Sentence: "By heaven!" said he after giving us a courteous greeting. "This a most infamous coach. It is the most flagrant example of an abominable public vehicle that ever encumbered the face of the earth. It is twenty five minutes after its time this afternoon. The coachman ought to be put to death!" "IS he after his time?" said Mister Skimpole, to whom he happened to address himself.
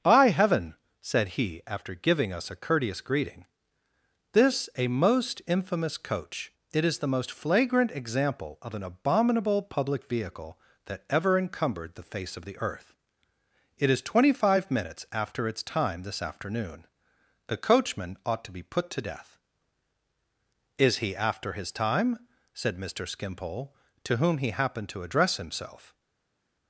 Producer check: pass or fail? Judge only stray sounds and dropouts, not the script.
pass